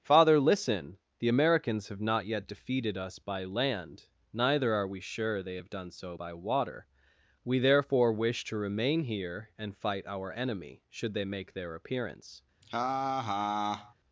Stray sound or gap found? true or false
true